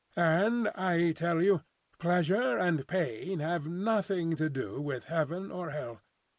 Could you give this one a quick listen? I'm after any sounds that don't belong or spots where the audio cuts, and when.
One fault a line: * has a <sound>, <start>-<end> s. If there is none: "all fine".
all fine